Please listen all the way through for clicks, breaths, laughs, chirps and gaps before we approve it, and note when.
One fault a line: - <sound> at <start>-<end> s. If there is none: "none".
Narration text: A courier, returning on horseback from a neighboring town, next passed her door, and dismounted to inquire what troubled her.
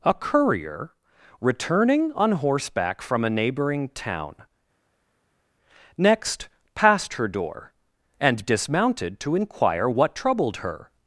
none